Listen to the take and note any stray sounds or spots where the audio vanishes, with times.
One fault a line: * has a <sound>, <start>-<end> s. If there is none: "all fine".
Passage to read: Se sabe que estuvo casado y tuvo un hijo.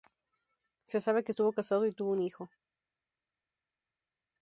all fine